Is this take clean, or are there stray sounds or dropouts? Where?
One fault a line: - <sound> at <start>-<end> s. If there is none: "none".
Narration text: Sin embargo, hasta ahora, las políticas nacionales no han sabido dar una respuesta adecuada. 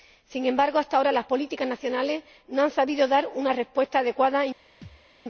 - thud at 4.8-5.1 s